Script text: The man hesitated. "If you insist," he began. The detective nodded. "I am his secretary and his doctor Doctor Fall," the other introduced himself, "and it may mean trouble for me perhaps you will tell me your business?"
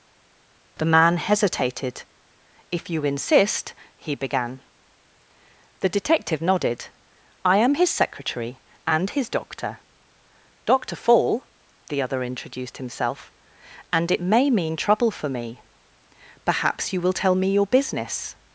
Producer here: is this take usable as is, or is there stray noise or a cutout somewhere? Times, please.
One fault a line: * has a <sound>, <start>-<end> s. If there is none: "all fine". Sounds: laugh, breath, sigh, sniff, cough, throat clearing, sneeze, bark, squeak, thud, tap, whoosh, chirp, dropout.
all fine